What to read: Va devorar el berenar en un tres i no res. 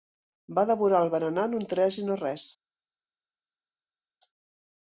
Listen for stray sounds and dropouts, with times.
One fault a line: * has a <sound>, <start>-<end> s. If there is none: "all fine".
all fine